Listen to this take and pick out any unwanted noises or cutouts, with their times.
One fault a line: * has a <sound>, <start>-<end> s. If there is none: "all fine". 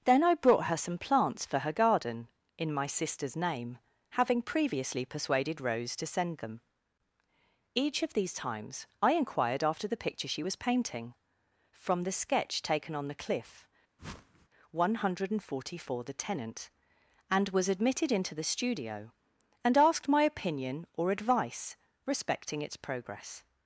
* has a whoosh, 14.0-14.5 s